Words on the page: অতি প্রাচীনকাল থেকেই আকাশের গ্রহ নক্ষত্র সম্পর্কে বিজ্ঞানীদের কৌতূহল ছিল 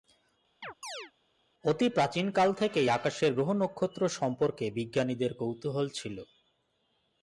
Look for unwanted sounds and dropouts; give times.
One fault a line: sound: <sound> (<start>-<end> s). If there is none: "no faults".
sound: chirp (0.6-1.1 s)